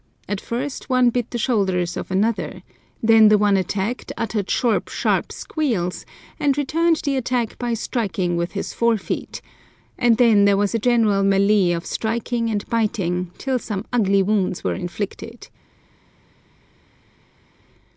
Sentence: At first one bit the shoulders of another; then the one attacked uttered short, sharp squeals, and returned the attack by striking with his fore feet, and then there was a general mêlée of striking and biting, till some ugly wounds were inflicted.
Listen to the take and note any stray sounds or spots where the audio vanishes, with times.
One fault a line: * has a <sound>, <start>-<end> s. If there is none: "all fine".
all fine